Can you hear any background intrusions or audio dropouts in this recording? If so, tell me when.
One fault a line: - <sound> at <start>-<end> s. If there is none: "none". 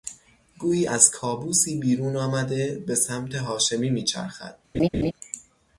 - laugh at 4.7-5.1 s